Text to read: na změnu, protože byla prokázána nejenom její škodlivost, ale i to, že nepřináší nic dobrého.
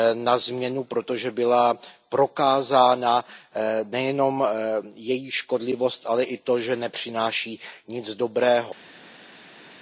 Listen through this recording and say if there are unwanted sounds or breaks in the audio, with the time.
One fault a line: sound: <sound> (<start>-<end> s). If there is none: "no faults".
no faults